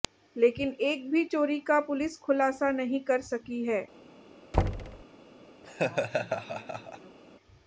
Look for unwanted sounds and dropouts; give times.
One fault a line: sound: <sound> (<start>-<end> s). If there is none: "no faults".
sound: thud (4.5-5.0 s)
sound: laugh (5.6-7.2 s)